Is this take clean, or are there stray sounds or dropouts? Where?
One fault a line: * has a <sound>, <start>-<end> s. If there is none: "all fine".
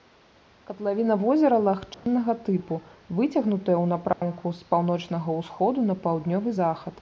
* has a dropout, 1.9-2.1 s
* has a dropout, 4.1-4.2 s